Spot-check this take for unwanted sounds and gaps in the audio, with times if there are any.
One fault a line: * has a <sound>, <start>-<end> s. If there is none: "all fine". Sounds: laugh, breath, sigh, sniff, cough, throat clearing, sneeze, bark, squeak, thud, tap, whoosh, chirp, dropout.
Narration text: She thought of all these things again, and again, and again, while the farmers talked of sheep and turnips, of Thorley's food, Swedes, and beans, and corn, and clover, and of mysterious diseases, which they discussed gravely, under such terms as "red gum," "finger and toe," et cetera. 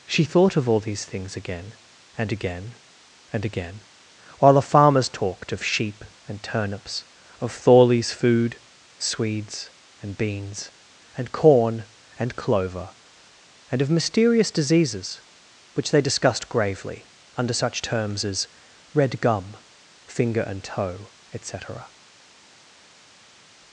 all fine